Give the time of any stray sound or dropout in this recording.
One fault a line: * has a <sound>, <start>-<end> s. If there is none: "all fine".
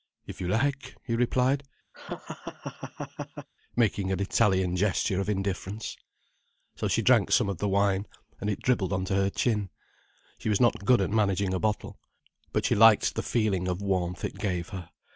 * has a laugh, 1.9-3.5 s